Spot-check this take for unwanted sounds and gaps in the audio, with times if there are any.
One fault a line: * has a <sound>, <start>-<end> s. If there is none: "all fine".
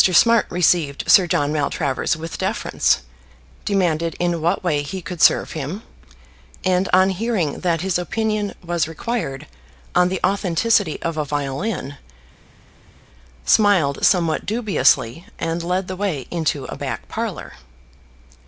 all fine